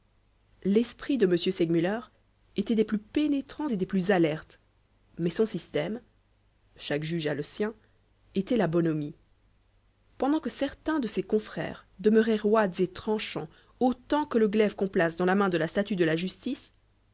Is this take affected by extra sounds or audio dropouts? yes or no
no